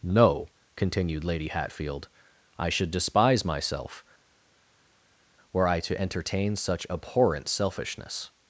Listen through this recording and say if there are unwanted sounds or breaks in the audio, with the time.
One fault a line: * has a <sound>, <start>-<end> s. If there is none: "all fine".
all fine